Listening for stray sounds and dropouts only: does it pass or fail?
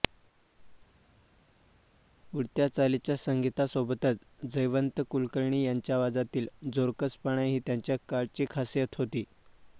pass